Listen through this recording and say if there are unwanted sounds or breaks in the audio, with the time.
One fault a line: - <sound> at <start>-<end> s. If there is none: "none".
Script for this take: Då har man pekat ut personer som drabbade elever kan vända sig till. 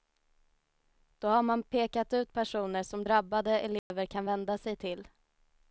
- dropout at 3.8-3.9 s